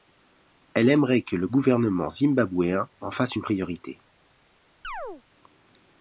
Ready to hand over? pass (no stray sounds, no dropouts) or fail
fail